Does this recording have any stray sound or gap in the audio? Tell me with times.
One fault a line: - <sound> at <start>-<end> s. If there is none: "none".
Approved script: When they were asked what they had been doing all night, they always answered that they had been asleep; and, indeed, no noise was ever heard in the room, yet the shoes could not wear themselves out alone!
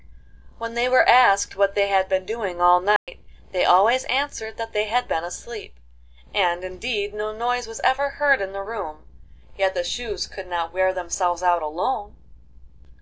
- dropout at 3.0-3.1 s